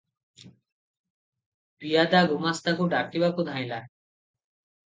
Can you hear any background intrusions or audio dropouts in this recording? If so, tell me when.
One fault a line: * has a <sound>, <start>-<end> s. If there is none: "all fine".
all fine